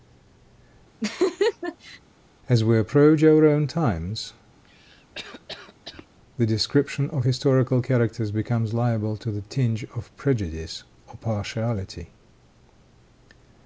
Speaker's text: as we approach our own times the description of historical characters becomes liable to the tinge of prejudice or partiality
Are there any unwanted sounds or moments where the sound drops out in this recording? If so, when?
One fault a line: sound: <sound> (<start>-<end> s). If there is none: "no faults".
sound: laugh (1.0-2.0 s)
sound: cough (4.6-6.1 s)